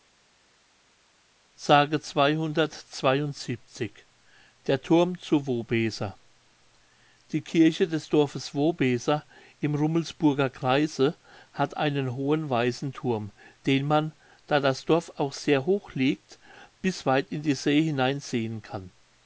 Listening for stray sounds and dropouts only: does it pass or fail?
pass